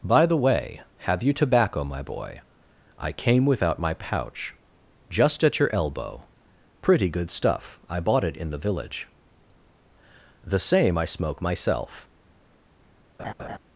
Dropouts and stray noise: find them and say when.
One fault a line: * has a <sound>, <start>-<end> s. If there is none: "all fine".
* has a laugh, 13.2-13.6 s